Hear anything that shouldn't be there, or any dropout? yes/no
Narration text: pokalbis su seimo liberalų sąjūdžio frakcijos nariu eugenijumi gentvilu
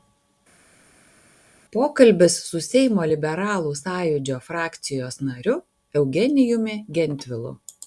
no